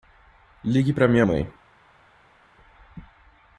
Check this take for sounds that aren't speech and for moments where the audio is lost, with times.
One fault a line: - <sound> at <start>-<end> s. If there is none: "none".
none